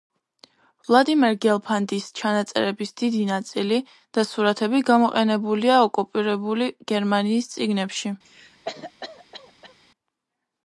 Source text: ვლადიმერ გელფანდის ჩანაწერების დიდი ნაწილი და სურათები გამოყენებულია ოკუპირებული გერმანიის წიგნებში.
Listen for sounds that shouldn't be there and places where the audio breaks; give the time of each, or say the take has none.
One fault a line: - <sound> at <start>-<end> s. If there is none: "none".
- cough at 8.2-9.7 s